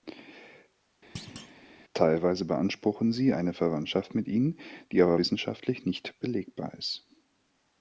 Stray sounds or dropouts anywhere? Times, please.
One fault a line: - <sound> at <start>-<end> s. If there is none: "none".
- thud at 1.1-1.5 s